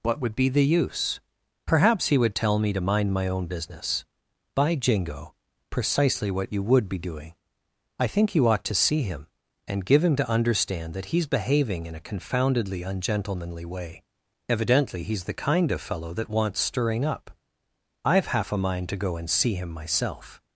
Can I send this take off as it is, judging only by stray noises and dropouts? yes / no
yes